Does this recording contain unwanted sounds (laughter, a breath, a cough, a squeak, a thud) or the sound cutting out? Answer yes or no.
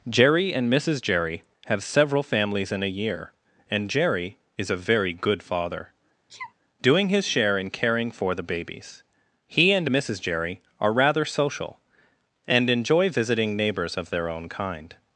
yes